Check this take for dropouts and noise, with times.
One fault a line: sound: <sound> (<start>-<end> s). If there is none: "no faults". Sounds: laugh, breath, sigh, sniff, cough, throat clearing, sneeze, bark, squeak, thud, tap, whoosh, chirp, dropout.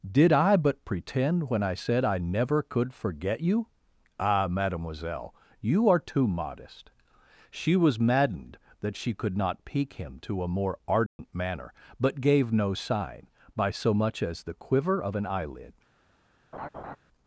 sound: dropout (11.1-11.2 s)
sound: laugh (16.5-17.0 s)